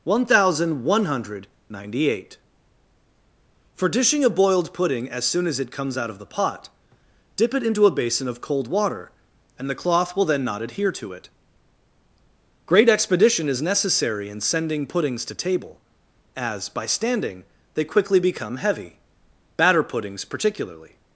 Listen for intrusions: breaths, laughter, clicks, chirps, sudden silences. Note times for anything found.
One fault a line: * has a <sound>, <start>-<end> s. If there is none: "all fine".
all fine